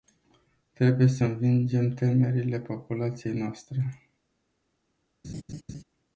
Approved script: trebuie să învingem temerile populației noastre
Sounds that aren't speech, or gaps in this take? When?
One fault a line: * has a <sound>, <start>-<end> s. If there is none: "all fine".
* has a laugh, 5.2-5.8 s